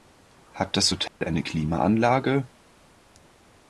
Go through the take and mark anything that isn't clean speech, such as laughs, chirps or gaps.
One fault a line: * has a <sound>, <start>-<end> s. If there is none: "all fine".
* has a dropout, 1.1-1.2 s